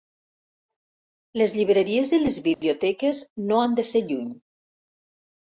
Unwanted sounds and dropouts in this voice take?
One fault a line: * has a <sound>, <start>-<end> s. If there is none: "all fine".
* has a dropout, 2.5-2.6 s